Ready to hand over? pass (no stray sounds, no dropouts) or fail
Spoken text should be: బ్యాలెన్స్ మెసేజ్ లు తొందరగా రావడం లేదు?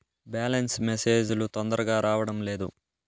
pass